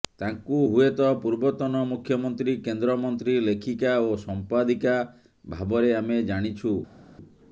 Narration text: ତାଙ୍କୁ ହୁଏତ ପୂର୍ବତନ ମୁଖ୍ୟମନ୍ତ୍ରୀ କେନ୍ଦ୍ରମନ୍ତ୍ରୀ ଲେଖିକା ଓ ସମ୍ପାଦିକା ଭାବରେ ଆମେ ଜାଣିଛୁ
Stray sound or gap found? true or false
false